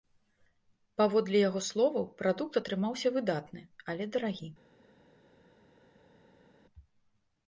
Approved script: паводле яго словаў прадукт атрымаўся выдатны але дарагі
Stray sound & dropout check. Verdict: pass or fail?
pass